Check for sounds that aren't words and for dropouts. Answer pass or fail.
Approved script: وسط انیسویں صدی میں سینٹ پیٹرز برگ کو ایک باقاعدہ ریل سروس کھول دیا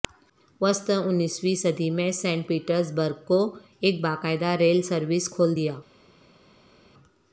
pass